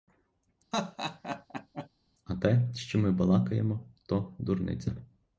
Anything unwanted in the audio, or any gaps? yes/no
yes